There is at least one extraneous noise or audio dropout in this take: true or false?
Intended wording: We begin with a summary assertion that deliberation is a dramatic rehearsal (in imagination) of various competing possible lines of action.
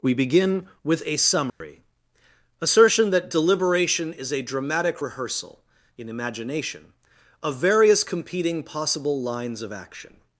true